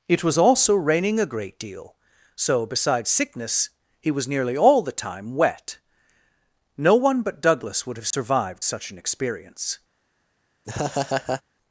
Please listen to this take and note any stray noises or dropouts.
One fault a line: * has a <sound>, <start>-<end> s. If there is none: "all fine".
* has a dropout, 8.1-8.1 s
* has a laugh, 10.6-11.4 s